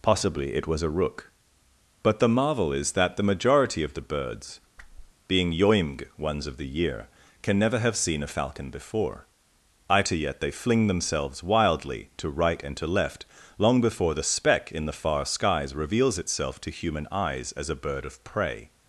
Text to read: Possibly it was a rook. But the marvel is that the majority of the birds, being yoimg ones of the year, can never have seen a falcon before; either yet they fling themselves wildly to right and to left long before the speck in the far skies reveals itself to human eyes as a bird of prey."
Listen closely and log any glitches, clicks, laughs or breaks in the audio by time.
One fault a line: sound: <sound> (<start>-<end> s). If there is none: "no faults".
sound: whoosh (4.8-5.1 s)